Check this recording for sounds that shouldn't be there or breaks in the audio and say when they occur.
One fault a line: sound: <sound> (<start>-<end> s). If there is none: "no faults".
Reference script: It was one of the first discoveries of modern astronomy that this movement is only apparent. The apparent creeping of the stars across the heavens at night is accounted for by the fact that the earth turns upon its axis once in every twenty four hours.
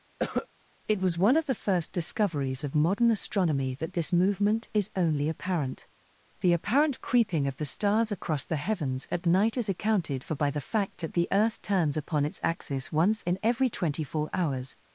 sound: cough (0.2-0.5 s)